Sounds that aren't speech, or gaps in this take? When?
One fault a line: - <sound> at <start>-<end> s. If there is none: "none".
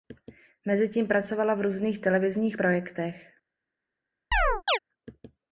- chirp at 4.3-4.8 s